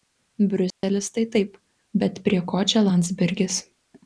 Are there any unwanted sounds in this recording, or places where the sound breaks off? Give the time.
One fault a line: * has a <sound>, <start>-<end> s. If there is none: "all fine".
* has a dropout, 0.7-0.8 s